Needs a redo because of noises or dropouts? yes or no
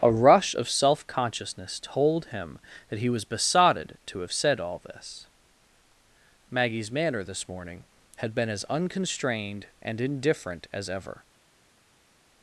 no